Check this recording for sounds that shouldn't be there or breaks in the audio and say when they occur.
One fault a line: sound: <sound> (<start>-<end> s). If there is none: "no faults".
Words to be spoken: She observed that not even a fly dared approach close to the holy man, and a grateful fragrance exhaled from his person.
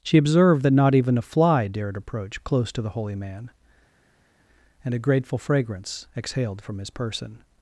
no faults